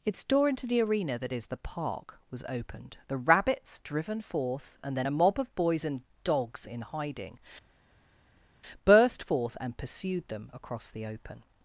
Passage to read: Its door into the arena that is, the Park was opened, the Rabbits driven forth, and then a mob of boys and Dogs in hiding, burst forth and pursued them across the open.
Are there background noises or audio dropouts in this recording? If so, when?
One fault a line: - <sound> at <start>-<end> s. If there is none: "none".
none